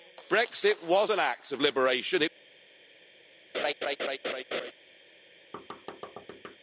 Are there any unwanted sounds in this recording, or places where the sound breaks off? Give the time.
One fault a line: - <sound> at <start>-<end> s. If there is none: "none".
- laugh at 3.5-4.7 s
- thud at 5.5-6.6 s